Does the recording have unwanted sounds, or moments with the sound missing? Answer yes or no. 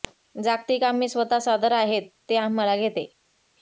no